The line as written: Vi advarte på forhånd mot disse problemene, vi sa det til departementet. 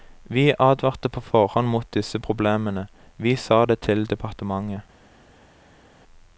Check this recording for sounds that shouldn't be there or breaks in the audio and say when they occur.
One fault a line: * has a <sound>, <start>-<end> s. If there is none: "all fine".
all fine